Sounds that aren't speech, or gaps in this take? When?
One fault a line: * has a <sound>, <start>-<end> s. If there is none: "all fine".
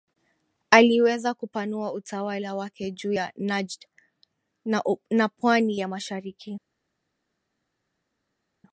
all fine